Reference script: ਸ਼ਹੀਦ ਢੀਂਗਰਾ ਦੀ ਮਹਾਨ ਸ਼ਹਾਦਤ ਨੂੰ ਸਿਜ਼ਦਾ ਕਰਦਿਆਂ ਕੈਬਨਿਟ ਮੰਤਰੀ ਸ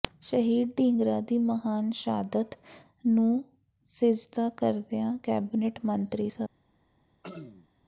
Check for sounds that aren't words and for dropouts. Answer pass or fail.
fail